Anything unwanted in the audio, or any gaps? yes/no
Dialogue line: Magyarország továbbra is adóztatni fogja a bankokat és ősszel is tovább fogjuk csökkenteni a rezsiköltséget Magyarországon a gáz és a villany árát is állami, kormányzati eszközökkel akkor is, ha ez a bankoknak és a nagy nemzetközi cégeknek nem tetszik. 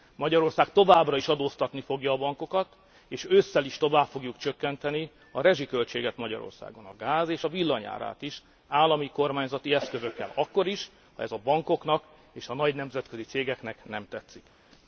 no